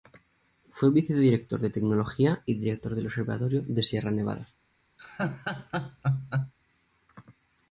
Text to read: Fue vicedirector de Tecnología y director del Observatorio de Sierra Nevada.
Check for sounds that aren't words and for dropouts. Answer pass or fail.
fail